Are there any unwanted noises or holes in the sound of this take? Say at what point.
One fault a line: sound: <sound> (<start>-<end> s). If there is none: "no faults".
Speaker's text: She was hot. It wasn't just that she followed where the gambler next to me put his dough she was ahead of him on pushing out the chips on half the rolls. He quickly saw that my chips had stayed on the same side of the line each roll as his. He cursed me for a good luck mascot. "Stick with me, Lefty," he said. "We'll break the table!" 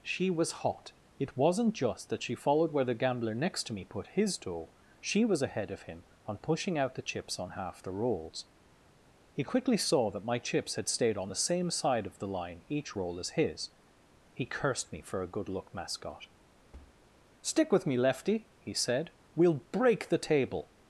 sound: thud (16.7-17.0 s)